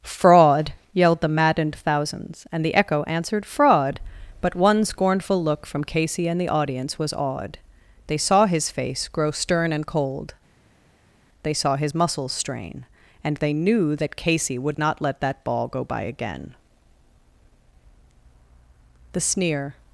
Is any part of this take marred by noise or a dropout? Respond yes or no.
no